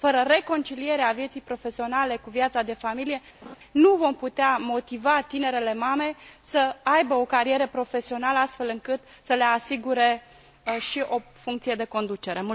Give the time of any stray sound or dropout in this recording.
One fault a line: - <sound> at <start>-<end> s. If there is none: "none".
- laugh at 3.4-3.6 s